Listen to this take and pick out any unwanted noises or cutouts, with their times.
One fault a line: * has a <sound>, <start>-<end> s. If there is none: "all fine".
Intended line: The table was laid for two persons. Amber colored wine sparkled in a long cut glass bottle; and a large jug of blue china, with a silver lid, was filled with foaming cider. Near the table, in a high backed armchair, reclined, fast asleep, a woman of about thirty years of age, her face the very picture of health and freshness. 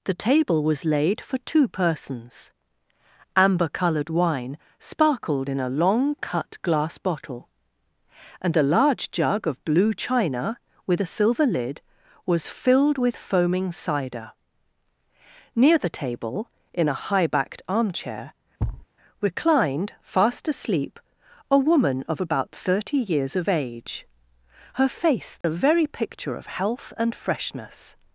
* has a thud, 18.6-18.9 s
* has a dropout, 25.4-25.4 s